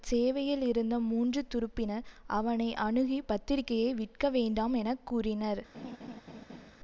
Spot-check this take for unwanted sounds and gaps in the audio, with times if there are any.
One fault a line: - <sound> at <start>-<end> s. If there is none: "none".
- laugh at 5.7-6.7 s